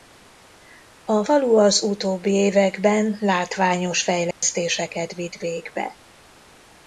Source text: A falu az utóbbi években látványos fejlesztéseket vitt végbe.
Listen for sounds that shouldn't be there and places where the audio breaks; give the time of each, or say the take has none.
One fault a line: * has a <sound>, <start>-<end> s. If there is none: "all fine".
* has a dropout, 4.3-4.4 s